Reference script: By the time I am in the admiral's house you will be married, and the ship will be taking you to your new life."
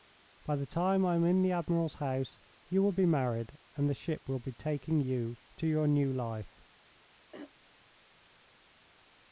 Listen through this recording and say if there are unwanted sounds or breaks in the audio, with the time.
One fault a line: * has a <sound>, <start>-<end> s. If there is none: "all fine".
* has a throat clearing, 7.3-7.5 s